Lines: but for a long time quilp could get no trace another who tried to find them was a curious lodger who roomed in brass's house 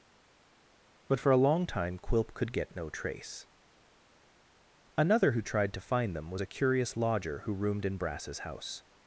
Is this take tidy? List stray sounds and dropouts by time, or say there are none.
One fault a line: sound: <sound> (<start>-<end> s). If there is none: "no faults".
no faults